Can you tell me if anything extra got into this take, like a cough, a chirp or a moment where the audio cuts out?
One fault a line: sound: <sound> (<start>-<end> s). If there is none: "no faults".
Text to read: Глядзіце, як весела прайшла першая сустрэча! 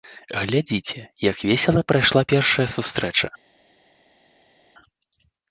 no faults